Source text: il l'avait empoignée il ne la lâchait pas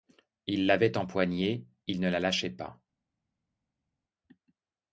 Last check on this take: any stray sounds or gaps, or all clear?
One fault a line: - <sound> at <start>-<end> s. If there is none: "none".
none